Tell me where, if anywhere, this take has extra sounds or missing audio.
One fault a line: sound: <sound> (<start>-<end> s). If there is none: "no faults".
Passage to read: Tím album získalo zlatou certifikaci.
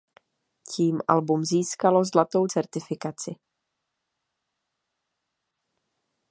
no faults